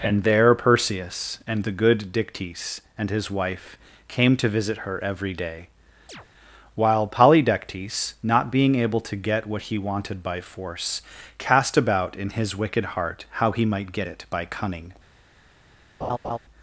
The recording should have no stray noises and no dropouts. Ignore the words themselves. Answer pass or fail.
fail